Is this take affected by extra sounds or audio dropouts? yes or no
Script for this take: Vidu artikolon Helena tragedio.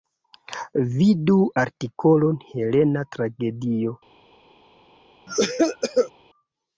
yes